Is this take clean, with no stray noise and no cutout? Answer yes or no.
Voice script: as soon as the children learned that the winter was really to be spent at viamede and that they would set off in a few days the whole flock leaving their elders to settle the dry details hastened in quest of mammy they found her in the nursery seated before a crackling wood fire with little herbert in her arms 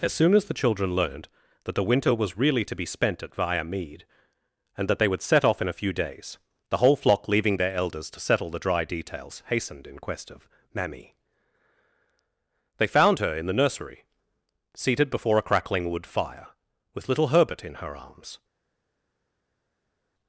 yes